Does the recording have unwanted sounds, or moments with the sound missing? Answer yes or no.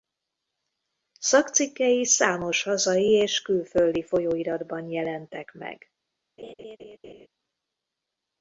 yes